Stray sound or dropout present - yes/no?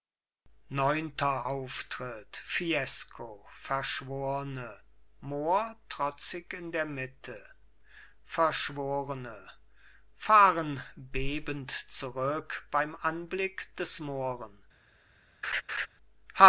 yes